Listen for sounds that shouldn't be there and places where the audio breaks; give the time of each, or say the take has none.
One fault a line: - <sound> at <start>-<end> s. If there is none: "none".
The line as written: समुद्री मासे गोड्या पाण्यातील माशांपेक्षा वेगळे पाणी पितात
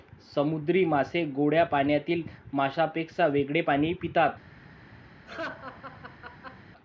- laugh at 5.3-6.6 s